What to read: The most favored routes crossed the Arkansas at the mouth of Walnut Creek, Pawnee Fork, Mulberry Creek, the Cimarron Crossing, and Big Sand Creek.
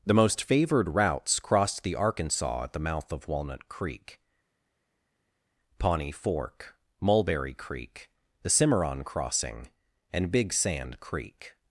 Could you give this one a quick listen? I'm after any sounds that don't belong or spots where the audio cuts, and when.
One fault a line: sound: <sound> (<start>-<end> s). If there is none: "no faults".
no faults